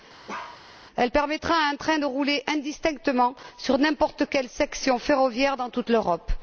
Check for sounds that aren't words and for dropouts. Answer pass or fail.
fail